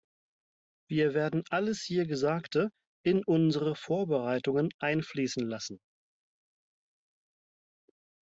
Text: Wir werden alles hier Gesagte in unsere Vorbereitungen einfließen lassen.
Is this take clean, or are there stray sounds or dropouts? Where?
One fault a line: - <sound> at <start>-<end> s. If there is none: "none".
none